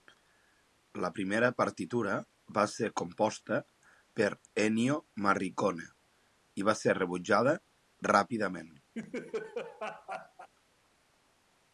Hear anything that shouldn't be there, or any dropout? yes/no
yes